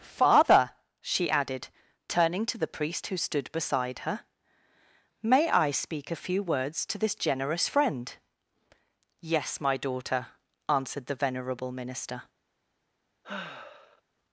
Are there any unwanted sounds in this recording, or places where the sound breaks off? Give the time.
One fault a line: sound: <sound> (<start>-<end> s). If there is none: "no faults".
sound: sigh (13.2-14.0 s)